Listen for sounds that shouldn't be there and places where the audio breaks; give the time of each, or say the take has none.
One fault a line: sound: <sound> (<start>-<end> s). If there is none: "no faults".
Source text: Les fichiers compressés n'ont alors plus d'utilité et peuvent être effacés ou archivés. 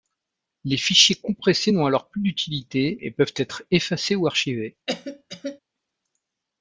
sound: cough (4.9-5.6 s)